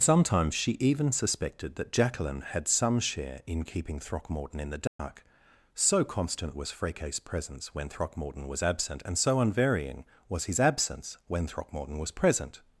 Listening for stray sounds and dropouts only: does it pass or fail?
fail